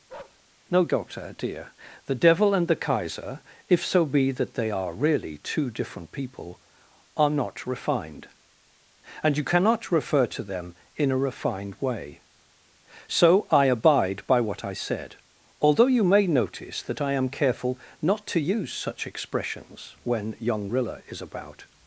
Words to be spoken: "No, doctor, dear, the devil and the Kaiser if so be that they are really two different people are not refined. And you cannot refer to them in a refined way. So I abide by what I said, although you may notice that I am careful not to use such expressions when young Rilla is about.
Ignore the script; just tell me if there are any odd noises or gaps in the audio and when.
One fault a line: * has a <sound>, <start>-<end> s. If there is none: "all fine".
* has a bark, 0.1-0.4 s